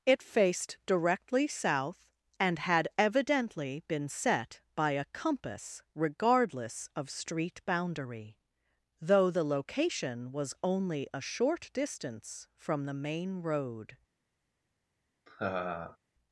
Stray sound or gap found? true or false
true